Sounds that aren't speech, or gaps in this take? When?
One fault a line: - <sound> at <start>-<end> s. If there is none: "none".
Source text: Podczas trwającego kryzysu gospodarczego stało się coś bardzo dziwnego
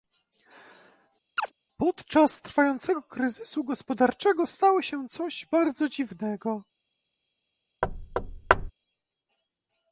- chirp at 1.4-1.5 s
- thud at 7.8-8.7 s